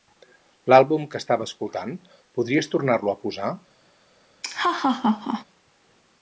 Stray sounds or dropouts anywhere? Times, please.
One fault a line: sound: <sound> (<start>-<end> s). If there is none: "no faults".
sound: laugh (4.4-5.4 s)